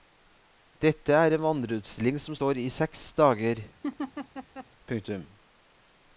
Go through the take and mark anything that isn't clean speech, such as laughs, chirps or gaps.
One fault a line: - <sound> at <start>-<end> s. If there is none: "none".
- laugh at 3.8-4.7 s